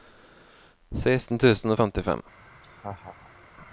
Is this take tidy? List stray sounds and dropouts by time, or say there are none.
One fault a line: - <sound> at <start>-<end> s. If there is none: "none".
- laugh at 2.4-3.5 s